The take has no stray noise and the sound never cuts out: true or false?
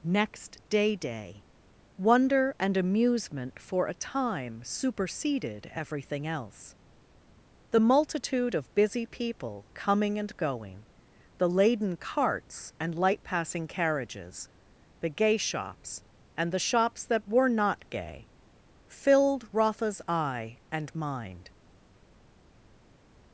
true